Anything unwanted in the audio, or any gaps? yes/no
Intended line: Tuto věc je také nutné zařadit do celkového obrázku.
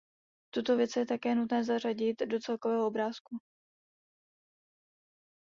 no